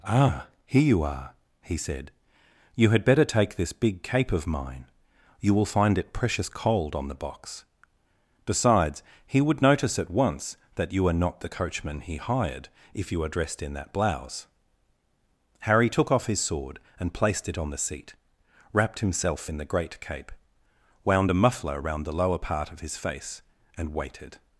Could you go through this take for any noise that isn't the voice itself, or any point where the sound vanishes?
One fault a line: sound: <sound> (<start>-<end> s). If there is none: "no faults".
no faults